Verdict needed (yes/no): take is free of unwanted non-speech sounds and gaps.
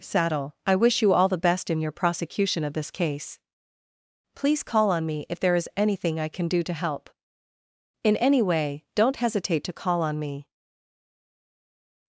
yes